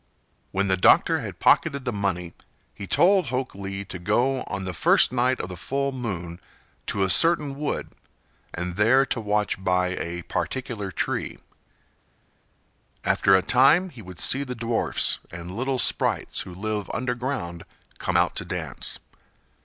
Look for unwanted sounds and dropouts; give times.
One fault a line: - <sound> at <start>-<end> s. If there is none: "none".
none